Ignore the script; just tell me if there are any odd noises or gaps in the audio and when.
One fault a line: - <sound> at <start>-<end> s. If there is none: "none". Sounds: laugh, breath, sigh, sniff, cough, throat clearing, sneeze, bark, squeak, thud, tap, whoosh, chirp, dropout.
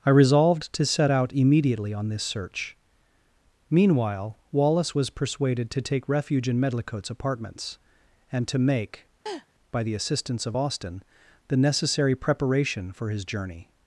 - laugh at 9.3-9.5 s